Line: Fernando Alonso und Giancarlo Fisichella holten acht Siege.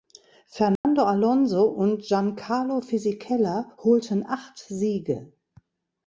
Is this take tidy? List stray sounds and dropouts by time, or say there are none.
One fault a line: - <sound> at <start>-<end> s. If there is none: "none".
- dropout at 0.8-0.8 s